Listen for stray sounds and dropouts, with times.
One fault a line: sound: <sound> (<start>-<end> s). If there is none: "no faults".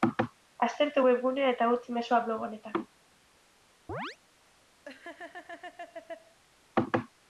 sound: chirp (3.9-4.2 s)
sound: laugh (4.8-6.4 s)